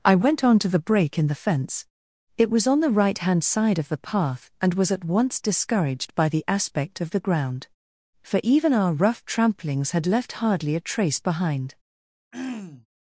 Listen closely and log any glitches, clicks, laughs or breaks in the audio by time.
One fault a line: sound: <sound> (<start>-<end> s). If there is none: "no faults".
sound: throat clearing (12.3-12.9 s)